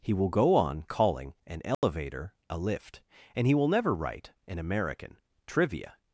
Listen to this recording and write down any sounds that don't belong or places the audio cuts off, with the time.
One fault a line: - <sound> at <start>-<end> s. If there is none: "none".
- dropout at 1.7-1.8 s